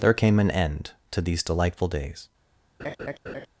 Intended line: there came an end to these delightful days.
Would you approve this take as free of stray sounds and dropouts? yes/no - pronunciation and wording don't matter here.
no